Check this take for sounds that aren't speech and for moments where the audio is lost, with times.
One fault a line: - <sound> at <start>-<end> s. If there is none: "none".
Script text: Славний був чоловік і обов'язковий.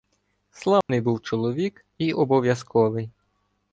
- dropout at 0.8-0.9 s